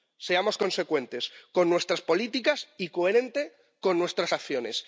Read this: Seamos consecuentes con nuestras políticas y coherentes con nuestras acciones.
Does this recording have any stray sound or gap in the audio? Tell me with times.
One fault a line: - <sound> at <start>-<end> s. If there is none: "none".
none